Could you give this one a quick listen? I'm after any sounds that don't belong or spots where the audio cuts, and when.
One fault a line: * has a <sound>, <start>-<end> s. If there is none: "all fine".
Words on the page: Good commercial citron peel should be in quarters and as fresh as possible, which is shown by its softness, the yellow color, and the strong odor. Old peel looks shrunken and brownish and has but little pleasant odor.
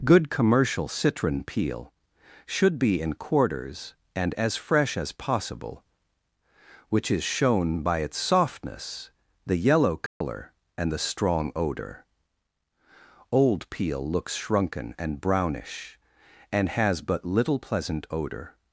* has a dropout, 10.1-10.2 s